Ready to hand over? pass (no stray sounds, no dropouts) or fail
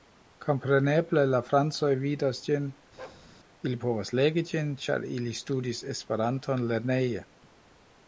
fail